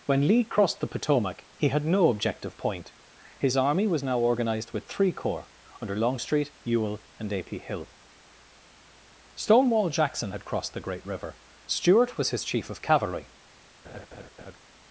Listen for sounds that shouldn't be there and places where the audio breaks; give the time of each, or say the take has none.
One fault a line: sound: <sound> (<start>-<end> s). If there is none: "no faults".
sound: laugh (13.8-14.6 s)